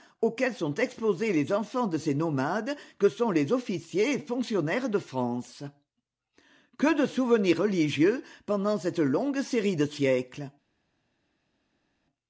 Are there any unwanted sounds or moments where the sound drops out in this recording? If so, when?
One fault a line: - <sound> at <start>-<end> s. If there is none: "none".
none